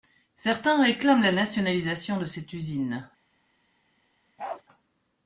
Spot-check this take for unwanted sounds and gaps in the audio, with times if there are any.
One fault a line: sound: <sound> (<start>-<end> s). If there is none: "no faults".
sound: bark (4.4-4.6 s)